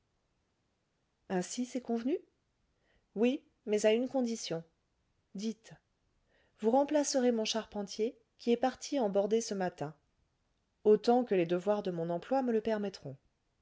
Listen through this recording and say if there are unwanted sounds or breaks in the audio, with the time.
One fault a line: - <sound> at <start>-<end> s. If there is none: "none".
none